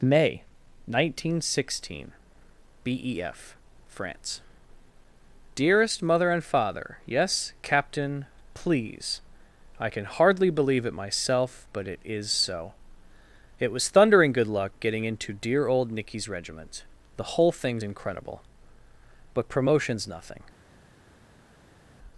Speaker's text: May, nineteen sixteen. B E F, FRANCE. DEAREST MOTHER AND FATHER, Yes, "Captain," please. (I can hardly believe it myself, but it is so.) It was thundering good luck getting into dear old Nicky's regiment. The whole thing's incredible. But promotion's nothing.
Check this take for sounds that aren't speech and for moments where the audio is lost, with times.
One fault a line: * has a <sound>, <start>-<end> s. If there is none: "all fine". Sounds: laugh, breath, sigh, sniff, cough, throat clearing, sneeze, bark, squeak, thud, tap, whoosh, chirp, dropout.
all fine